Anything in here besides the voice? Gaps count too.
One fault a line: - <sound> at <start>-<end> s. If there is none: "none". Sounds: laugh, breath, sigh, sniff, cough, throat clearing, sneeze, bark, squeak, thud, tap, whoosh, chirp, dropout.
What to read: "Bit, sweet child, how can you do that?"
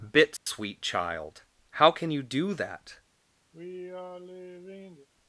- dropout at 0.4-0.5 s
- sigh at 3.5-5.1 s